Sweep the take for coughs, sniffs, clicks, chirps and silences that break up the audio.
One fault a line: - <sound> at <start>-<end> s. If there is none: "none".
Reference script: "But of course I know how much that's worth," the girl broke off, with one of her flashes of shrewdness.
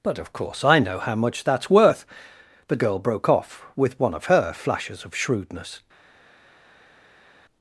none